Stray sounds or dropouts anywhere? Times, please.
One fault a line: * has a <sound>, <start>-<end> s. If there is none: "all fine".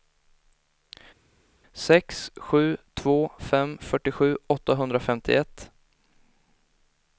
all fine